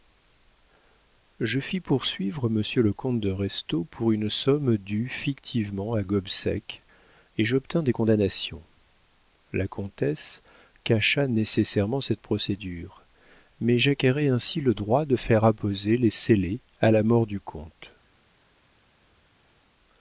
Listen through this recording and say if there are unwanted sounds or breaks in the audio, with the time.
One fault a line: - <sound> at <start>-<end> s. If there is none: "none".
none